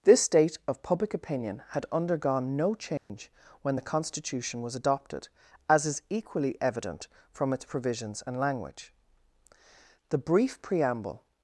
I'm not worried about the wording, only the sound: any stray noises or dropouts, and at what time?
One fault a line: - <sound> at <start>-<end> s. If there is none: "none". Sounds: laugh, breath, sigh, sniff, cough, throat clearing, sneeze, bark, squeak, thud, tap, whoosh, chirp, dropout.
- dropout at 3.0-3.1 s